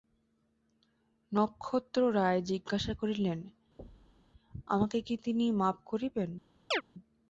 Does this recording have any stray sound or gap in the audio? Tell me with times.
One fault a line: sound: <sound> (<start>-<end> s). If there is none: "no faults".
sound: thud (3.8-4.3 s)
sound: chirp (6.7-6.8 s)